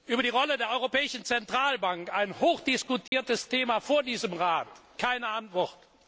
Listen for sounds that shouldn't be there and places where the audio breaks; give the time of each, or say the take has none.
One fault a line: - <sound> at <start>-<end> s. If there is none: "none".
- dropout at 3.1-3.1 s